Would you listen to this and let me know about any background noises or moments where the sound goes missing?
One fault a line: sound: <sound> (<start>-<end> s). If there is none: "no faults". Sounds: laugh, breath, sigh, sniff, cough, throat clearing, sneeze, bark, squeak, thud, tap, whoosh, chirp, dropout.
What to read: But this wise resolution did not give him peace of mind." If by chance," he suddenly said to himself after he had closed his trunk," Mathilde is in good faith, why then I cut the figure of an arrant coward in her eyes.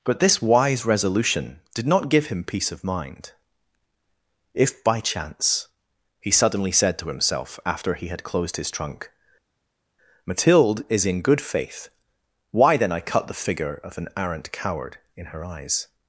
no faults